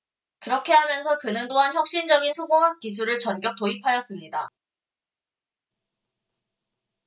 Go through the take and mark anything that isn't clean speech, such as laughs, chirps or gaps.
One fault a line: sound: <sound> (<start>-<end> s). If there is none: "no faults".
no faults